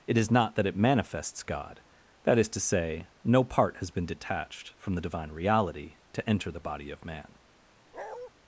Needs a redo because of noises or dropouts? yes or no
yes